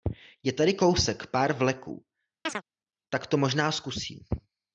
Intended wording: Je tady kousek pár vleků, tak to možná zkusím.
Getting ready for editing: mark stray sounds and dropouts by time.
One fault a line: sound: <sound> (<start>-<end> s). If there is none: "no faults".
sound: chirp (2.5-2.6 s)